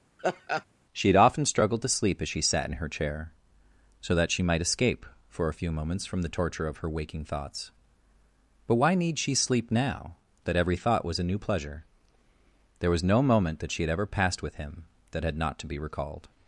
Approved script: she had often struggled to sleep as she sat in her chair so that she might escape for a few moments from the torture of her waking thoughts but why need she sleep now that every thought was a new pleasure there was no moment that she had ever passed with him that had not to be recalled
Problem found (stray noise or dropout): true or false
true